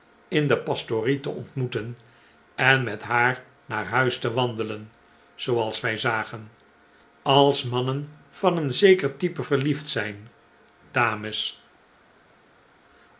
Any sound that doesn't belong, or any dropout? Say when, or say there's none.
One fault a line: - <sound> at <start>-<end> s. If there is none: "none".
none